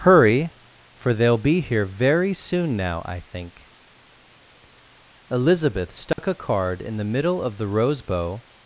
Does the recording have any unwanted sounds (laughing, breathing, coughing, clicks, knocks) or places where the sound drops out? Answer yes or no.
yes